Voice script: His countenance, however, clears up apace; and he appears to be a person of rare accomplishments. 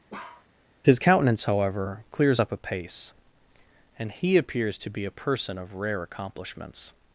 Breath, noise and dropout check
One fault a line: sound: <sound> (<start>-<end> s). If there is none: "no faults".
sound: bark (0.1-0.5 s)